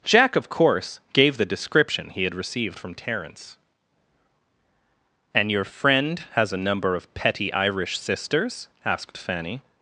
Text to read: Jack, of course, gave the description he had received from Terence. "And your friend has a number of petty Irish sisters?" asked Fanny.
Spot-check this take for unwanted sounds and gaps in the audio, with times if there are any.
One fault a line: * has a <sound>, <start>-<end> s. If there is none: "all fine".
all fine